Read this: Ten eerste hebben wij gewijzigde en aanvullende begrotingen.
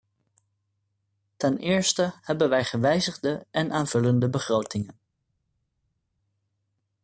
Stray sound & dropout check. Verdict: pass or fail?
pass